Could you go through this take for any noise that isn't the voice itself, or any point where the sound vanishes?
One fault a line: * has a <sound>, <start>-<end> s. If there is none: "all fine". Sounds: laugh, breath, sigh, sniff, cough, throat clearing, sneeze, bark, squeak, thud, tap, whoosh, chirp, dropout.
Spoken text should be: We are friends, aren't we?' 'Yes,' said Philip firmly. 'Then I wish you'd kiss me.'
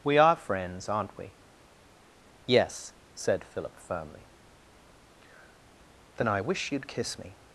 all fine